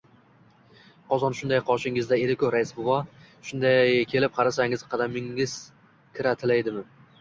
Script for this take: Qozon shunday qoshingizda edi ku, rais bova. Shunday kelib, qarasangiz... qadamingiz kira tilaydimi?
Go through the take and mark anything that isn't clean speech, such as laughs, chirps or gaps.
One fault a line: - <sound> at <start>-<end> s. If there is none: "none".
none